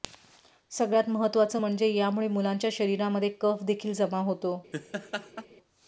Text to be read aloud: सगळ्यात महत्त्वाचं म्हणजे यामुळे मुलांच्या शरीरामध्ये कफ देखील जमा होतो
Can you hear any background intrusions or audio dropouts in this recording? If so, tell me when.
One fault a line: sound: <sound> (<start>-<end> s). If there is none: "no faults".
sound: laugh (4.7-5.5 s)